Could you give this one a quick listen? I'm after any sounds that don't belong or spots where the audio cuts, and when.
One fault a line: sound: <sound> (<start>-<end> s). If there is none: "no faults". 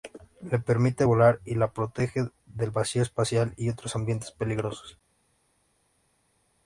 no faults